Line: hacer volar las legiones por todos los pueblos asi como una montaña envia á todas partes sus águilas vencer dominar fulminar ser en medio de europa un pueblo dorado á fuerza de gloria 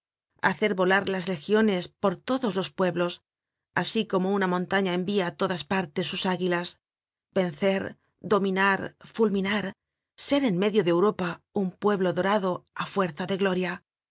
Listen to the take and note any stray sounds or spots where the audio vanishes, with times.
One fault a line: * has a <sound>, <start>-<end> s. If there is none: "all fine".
all fine